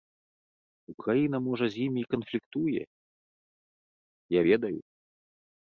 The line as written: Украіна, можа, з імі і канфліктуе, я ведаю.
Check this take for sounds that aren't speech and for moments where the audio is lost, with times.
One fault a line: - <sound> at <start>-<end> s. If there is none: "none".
none